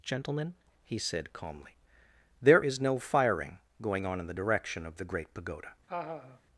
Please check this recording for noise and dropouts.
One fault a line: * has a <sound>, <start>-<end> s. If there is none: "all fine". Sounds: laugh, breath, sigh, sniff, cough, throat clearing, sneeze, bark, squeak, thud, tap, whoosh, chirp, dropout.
* has a laugh, 5.9-6.4 s